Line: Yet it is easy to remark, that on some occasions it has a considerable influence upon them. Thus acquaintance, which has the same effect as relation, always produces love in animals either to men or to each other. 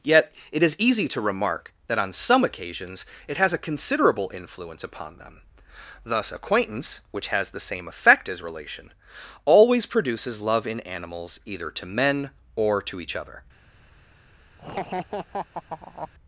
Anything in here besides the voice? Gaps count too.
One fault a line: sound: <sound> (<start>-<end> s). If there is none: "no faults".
sound: laugh (14.6-16.1 s)